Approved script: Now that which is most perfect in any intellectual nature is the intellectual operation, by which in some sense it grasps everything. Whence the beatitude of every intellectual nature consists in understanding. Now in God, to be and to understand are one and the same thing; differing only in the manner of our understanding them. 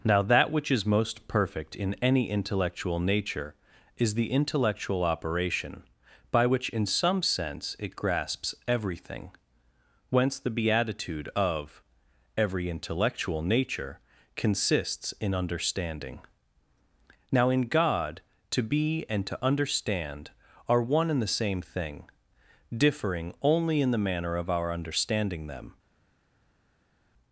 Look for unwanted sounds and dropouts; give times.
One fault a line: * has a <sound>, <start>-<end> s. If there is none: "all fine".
all fine